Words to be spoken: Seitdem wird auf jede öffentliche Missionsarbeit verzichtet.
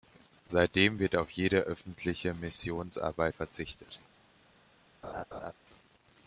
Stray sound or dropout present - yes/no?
yes